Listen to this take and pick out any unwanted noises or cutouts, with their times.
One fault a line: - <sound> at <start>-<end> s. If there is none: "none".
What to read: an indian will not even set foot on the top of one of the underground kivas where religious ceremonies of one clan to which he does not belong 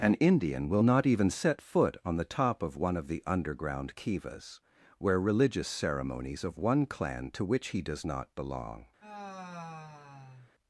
- sigh at 9.0-10.5 s